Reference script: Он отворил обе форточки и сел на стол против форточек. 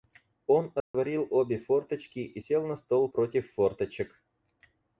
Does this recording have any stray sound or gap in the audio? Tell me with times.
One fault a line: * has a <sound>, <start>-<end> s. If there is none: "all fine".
* has a dropout, 0.8-0.9 s